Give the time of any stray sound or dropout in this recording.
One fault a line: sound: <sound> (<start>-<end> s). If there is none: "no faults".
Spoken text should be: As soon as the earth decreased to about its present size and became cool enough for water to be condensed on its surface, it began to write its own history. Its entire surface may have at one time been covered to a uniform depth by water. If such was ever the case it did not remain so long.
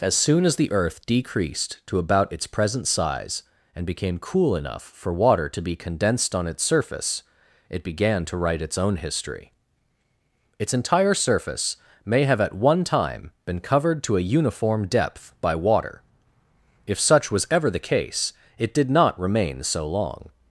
no faults